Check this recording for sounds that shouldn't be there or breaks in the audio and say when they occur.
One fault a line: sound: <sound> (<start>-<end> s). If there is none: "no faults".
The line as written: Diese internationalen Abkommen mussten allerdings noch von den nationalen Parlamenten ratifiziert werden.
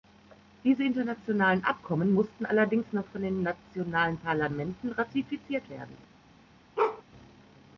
sound: bark (6.8-7.0 s)